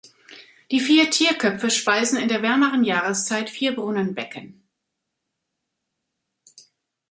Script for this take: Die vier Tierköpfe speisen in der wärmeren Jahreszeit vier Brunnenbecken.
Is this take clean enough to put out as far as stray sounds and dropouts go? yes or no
yes